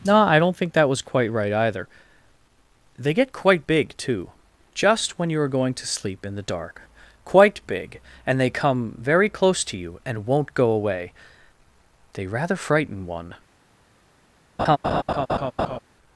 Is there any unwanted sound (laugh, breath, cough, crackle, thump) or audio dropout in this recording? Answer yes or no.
yes